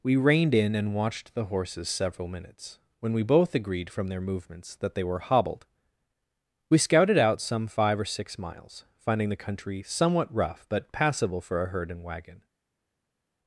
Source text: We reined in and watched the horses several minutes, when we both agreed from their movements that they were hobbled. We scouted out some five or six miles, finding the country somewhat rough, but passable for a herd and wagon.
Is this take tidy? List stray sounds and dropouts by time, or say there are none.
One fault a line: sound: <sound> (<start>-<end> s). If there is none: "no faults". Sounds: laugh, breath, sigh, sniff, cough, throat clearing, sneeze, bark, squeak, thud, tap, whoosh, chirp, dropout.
no faults